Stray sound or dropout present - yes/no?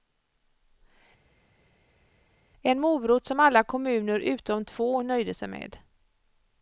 no